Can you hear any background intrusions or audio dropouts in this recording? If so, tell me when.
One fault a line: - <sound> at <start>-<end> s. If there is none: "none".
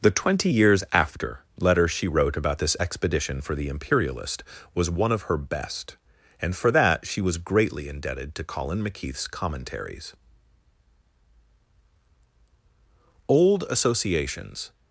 none